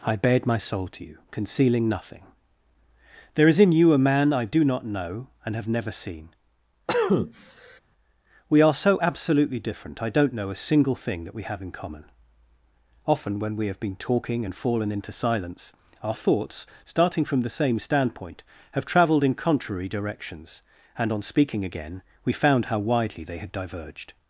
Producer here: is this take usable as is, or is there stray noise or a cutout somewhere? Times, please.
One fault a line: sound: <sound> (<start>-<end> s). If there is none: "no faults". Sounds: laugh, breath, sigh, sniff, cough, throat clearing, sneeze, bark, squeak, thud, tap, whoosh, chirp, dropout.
sound: cough (6.9-7.8 s)